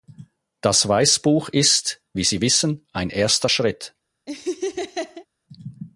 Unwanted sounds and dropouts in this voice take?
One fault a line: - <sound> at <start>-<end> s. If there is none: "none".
- laugh at 4.3-5.3 s